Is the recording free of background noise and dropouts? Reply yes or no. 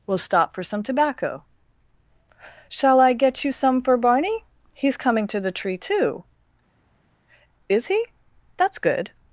yes